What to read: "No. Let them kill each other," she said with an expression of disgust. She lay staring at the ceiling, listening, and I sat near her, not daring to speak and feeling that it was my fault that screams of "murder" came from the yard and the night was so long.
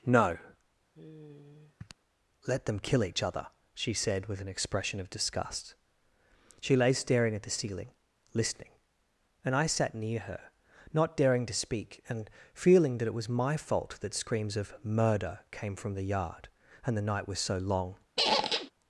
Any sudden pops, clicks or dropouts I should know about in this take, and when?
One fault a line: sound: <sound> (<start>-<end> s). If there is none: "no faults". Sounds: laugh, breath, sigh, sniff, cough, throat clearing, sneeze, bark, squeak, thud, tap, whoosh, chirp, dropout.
sound: sigh (0.9-2.0 s)
sound: squeak (18.2-18.7 s)